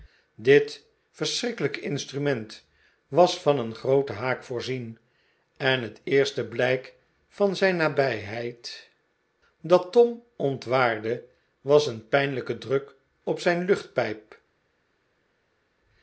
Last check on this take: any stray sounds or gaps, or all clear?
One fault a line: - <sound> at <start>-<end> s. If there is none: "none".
none